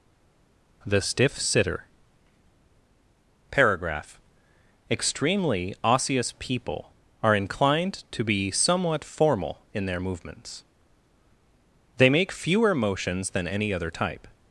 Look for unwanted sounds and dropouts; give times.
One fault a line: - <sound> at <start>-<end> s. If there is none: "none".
none